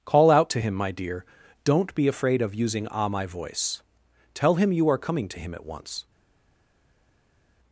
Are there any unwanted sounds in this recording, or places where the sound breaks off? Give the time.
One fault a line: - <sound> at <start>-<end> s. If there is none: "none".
none